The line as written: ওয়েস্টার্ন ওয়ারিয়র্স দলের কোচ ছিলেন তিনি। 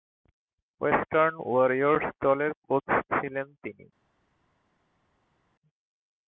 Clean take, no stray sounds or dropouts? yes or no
yes